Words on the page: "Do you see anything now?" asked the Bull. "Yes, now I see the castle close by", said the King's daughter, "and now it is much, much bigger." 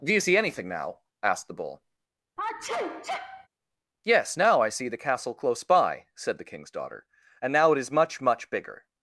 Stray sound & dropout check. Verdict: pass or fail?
fail